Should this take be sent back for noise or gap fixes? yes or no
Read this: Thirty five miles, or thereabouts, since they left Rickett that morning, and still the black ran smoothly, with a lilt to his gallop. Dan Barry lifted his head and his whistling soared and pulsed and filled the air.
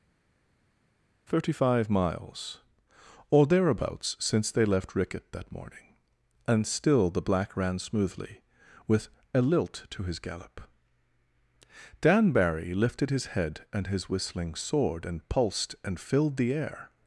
no